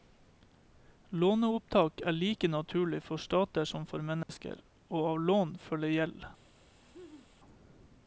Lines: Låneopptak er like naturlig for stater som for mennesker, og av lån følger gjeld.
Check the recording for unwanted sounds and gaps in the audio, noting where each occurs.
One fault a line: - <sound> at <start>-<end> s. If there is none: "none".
- dropout at 4.2-4.3 s
- laugh at 6.7-7.3 s